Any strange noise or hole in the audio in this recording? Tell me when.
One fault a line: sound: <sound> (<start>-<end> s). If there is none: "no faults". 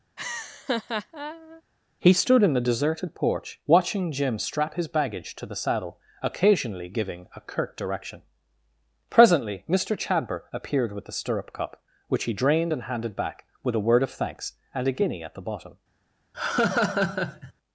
sound: laugh (0.2-1.6 s)
sound: laugh (16.3-17.5 s)